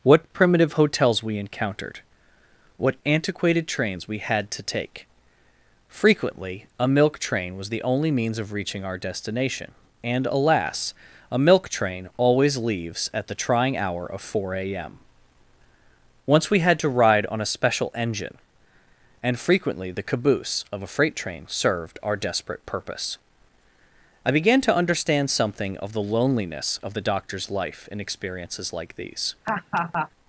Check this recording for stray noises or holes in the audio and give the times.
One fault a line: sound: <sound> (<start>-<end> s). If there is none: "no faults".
sound: laugh (29.4-30.1 s)